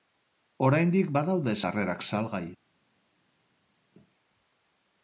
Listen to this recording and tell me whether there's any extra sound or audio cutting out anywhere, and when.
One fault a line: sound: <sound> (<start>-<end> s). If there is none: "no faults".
no faults